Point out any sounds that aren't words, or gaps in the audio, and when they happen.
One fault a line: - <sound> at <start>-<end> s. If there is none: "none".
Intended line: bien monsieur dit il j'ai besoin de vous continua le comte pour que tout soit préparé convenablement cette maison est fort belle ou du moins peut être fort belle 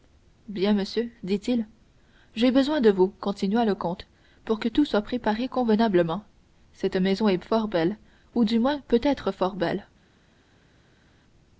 none